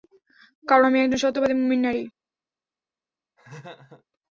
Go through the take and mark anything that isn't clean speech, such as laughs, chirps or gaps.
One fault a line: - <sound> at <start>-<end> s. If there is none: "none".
- laugh at 3.4-4.0 s